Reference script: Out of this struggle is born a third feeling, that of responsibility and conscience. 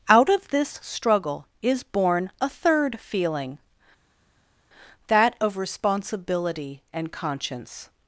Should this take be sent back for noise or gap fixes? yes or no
no